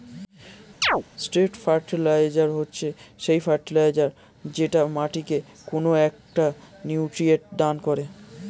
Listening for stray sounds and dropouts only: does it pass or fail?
fail